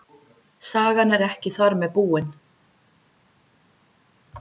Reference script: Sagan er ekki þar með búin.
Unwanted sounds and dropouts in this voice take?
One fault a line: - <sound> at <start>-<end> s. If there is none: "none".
none